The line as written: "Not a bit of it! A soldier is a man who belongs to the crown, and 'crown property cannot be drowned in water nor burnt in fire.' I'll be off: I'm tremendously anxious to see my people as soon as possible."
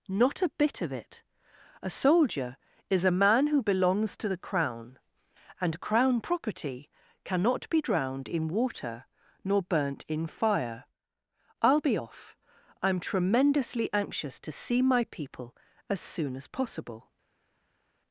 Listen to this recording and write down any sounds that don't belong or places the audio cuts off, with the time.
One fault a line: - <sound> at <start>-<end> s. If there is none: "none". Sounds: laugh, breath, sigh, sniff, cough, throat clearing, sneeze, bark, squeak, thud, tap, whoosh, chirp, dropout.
none